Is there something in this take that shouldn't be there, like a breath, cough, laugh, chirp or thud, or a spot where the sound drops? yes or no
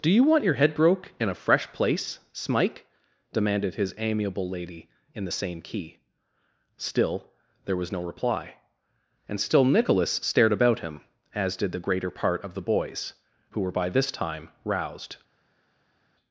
no